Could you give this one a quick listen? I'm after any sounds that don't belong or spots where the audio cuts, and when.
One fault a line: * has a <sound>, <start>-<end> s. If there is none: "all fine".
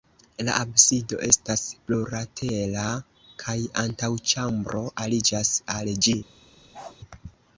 * has a bark, 6.7-7.0 s